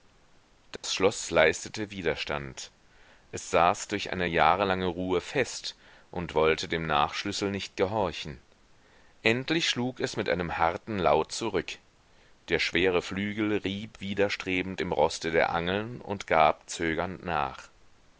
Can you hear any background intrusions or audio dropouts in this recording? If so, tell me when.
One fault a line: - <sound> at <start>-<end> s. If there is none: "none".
- dropout at 0.8-0.8 s